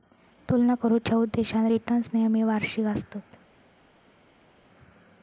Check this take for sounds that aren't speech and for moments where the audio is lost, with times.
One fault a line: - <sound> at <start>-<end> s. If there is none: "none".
none